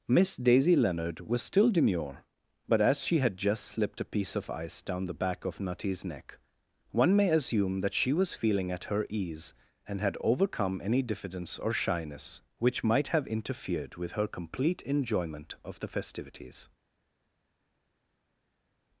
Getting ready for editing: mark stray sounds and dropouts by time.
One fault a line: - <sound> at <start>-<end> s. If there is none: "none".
none